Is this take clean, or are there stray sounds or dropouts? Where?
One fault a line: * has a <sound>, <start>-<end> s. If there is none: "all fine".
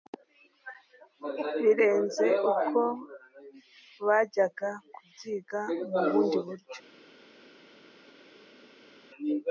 all fine